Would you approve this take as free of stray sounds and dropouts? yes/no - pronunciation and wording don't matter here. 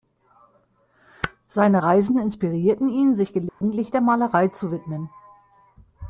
no